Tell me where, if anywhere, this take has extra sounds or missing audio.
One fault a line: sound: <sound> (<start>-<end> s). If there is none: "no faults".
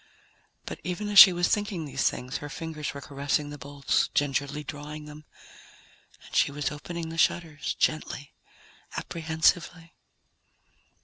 no faults